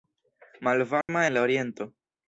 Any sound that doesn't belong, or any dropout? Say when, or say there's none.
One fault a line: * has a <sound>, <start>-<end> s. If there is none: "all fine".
* has a dropout, 1.0-1.1 s